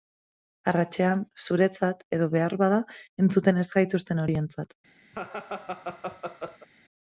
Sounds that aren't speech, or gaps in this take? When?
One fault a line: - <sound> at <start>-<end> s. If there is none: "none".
- laugh at 5.1-6.7 s